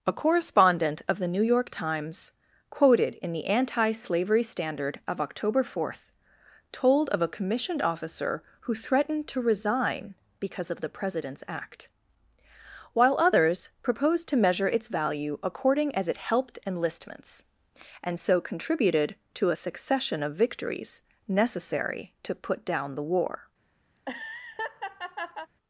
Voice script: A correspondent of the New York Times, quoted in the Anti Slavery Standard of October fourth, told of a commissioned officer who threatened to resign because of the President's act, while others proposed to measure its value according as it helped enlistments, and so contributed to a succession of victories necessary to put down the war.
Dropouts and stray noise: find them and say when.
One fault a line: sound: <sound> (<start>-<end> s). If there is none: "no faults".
sound: laugh (23.9-25.5 s)